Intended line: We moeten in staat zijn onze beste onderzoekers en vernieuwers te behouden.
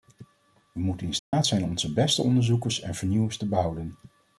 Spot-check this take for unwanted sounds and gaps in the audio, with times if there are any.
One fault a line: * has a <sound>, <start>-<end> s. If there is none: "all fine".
* has a dropout, 1.2-1.3 s